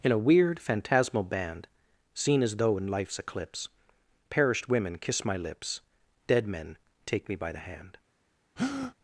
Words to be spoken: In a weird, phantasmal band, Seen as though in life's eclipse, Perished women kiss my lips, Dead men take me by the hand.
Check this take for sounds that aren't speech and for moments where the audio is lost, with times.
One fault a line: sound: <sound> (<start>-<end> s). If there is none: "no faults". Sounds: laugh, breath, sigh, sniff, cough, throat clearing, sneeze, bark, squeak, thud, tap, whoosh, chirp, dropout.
sound: breath (8.6-8.9 s)